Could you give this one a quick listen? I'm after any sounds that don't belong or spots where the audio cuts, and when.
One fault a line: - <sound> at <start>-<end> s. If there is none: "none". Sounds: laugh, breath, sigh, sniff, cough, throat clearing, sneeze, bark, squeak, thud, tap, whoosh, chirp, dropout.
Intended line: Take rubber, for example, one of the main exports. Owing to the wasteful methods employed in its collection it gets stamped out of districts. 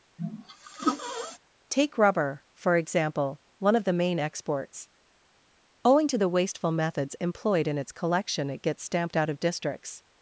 - sneeze at 0.2-1.4 s